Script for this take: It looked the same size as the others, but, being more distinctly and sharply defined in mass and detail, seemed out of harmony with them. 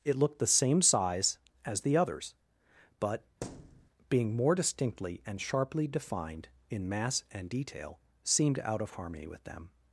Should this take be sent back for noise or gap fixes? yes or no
yes